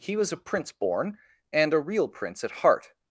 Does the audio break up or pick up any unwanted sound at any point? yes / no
no